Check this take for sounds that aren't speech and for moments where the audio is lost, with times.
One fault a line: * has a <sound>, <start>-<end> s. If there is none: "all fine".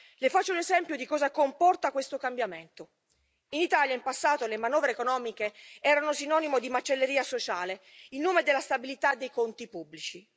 all fine